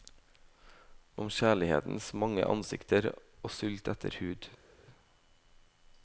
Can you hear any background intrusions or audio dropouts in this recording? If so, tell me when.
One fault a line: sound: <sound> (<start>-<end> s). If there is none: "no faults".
no faults